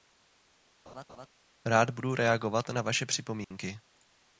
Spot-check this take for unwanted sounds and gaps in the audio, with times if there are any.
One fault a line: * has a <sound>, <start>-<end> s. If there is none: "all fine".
* has a laugh, 0.9-1.3 s
* has a dropout, 3.4-3.5 s